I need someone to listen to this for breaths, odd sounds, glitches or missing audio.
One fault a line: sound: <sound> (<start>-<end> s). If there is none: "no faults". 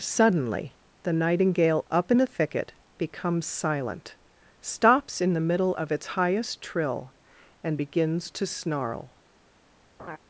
sound: laugh (10.0-10.2 s)